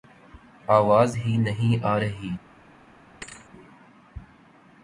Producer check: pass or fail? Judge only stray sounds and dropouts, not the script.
fail